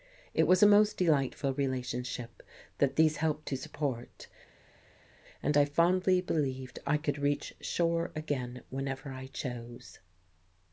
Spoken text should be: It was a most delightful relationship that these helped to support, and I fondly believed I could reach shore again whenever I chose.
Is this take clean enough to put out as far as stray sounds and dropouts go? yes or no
yes